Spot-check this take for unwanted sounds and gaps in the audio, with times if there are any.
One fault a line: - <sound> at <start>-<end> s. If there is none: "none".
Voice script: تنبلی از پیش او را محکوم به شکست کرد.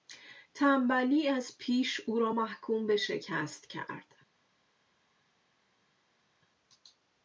none